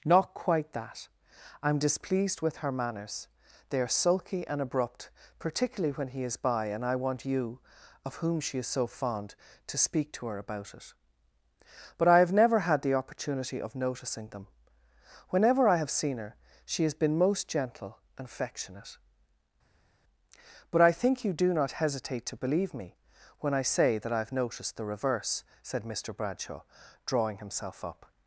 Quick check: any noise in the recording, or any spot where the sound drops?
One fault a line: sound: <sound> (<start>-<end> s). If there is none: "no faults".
no faults